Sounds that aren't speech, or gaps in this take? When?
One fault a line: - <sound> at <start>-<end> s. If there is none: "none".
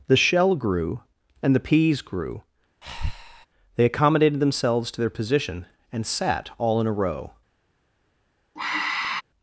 - breath at 2.8-3.5 s
- sigh at 8.6-9.2 s